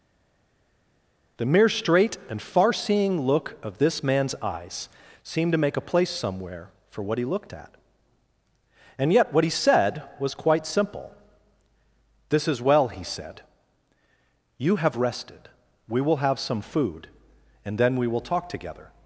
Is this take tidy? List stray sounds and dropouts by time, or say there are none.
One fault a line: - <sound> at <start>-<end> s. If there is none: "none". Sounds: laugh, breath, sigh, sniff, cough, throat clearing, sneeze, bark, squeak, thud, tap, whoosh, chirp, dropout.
none